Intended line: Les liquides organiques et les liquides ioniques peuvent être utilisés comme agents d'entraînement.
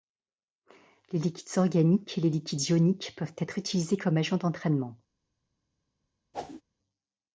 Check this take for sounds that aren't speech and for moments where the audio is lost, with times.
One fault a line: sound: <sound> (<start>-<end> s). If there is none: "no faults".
sound: whoosh (6.3-6.6 s)